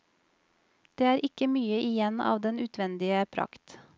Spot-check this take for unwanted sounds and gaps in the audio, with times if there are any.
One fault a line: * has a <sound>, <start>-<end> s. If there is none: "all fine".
all fine